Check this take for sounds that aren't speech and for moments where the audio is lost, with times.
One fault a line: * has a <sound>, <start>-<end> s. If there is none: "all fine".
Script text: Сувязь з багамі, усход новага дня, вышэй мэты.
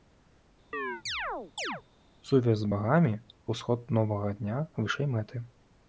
* has a chirp, 0.7-1.8 s